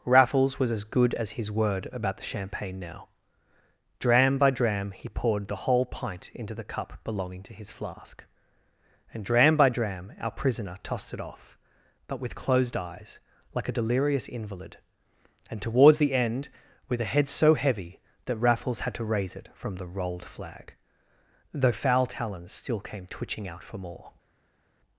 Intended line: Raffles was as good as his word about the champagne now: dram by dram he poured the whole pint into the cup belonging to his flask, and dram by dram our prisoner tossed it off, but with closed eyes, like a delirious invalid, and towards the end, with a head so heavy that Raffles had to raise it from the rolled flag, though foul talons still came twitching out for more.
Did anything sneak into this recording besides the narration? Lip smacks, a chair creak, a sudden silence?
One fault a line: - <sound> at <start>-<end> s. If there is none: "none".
none